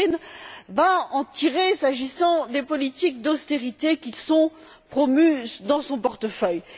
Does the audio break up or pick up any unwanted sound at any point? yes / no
no